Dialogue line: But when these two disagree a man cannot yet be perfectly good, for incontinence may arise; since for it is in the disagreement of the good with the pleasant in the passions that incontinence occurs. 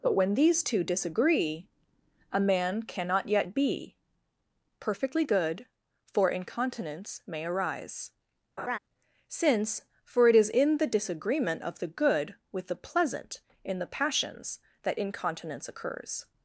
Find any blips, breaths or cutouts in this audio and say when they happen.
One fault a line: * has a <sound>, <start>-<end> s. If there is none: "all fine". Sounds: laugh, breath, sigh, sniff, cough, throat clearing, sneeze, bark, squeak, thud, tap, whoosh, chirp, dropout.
* has a laugh, 8.6-8.8 s